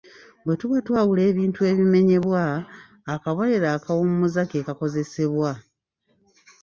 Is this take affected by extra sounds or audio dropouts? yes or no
no